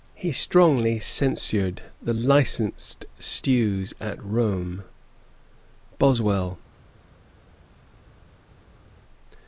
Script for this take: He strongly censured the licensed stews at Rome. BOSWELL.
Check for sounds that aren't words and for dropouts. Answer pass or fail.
pass